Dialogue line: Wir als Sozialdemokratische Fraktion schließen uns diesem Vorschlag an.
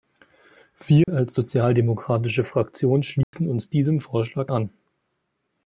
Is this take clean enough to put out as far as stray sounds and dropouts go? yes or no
no